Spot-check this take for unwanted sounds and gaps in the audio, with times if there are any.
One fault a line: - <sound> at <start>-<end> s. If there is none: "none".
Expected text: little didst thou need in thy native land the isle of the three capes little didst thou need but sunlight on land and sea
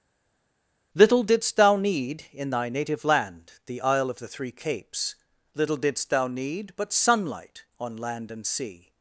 none